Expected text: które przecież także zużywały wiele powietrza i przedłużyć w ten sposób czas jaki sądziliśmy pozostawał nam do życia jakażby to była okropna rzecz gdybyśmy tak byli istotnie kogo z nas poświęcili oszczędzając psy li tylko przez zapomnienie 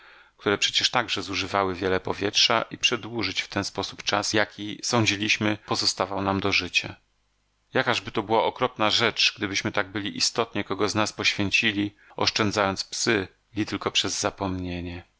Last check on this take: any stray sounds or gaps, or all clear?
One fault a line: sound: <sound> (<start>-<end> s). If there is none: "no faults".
no faults